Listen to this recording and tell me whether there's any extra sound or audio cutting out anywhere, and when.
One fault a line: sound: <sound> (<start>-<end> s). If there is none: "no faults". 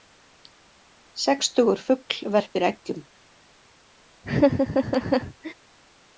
sound: laugh (4.2-5.5 s)